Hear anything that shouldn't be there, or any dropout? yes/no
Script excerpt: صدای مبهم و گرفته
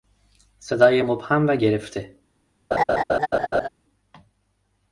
yes